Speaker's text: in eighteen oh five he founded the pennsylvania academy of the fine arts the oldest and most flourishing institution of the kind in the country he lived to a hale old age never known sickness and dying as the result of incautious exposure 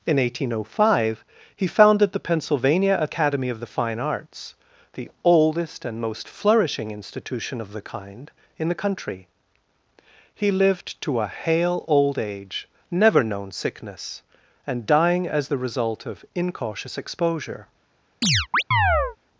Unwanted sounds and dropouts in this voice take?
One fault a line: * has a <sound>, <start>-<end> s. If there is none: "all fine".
* has a chirp, 18.2-19.2 s